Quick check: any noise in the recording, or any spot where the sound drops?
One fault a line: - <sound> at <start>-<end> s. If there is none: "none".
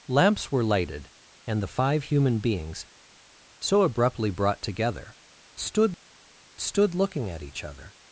none